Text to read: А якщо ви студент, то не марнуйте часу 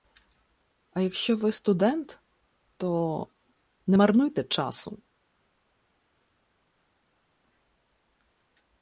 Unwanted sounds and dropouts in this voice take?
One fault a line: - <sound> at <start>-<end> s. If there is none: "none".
none